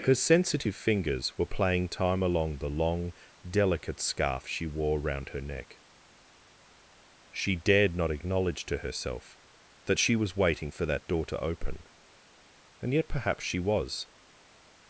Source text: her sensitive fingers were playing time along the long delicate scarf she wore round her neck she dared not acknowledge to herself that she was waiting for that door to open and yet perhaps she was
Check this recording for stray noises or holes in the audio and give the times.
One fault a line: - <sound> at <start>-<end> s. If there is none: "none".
none